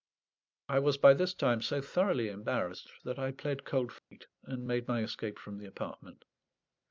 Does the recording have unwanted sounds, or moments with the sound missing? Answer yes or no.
yes